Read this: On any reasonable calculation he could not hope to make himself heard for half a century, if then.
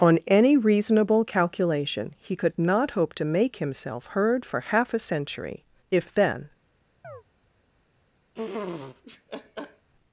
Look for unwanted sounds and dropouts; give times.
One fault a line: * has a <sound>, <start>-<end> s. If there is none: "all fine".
* has a chirp, 7.0-7.2 s
* has a laugh, 8.3-9.9 s